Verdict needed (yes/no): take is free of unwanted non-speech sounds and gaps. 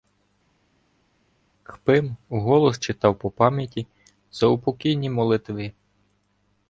yes